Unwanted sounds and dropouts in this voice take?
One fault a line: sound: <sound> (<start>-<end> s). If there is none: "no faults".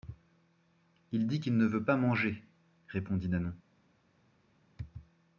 no faults